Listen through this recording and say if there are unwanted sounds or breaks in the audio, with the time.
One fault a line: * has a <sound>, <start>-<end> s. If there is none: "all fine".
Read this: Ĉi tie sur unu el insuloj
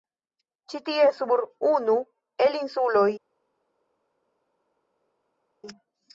all fine